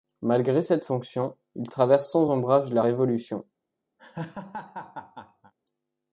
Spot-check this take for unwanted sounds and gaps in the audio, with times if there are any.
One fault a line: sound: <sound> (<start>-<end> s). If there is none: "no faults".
sound: laugh (4.0-5.5 s)